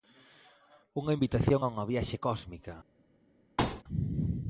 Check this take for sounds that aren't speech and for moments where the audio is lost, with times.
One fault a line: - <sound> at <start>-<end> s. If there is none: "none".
- thud at 3.6-3.8 s